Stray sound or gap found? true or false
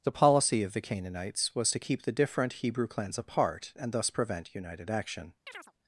true